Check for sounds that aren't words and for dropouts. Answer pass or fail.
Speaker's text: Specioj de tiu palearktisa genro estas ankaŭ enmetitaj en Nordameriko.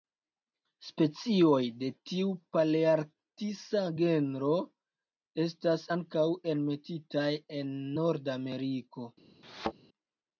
fail